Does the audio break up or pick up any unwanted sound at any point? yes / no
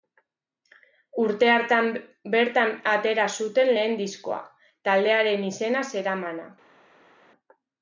no